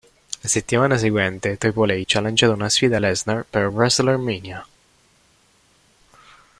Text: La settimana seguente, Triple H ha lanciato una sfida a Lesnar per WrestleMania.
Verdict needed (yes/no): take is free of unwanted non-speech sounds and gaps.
yes